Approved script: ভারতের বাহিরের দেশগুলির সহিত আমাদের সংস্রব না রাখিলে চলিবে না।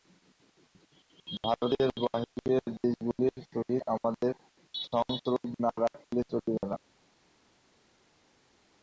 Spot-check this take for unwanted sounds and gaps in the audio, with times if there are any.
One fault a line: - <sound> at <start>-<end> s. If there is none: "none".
none